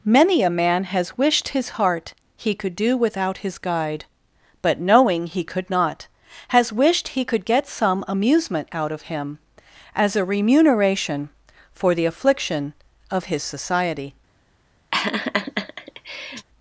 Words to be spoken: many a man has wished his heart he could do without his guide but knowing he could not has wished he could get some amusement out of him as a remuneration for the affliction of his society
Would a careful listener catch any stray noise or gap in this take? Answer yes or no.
yes